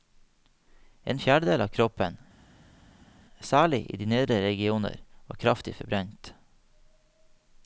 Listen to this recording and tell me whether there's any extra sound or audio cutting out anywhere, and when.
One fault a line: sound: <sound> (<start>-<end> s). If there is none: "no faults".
no faults